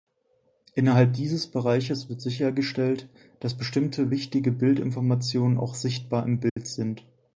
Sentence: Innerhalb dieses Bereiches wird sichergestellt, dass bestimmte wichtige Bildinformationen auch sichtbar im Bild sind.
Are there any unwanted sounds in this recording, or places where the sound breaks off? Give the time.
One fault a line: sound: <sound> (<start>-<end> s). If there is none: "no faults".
sound: dropout (6.5-6.6 s)